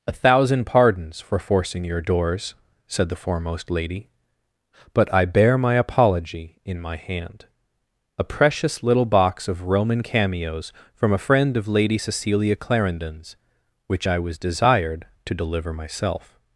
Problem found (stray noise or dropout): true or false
false